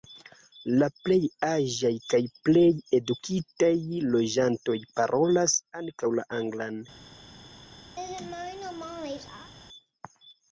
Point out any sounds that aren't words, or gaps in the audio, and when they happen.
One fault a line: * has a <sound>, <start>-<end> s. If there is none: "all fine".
* has a laugh, 8.0-9.5 s